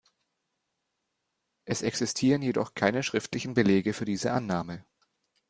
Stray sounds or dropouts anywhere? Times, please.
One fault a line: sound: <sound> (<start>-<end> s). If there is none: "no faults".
no faults